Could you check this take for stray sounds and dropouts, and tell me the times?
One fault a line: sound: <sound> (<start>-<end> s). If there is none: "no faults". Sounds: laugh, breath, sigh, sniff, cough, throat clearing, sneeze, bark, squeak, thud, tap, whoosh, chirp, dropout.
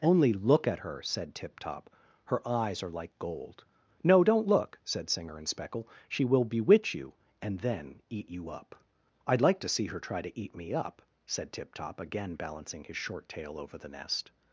no faults